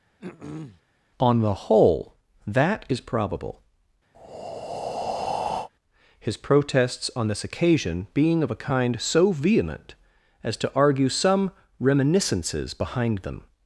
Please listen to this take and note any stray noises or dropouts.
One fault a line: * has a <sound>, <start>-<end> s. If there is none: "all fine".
* has a throat clearing, 0.2-0.8 s
* has a breath, 4.1-5.7 s